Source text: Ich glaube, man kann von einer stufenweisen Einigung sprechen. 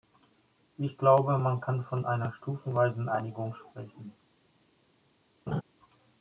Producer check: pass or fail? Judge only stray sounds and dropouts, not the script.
fail